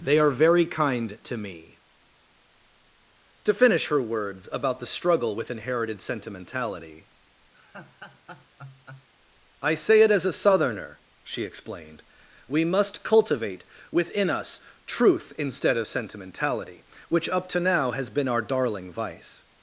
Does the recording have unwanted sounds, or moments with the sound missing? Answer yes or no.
yes